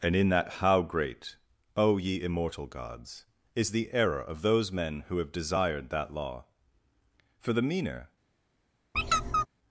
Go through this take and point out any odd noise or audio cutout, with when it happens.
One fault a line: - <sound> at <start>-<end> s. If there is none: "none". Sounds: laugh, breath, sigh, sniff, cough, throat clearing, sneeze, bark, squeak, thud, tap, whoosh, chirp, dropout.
- squeak at 8.9-9.5 s